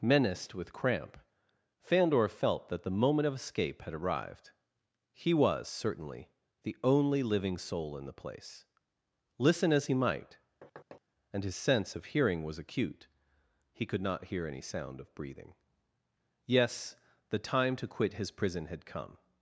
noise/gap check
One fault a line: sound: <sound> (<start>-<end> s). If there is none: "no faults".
sound: thud (10.6-11.0 s)